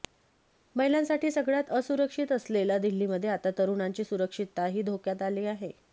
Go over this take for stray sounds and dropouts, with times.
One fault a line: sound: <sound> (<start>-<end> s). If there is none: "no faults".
no faults